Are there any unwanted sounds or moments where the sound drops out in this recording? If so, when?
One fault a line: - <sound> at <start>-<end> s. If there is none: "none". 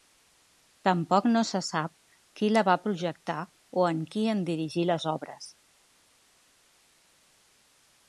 none